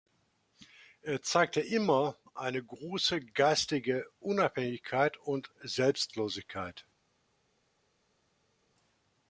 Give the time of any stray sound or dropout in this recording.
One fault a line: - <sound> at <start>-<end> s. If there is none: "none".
none